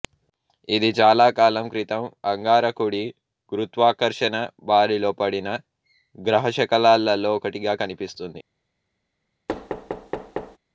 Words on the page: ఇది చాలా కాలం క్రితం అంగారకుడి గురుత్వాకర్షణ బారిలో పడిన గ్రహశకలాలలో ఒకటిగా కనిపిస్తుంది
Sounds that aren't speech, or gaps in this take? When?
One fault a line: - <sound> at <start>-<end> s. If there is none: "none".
- thud at 9.5-10.6 s